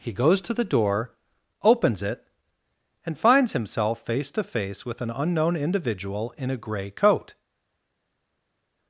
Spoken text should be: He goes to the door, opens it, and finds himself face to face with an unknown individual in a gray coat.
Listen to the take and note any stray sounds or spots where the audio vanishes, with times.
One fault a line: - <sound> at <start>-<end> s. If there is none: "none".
none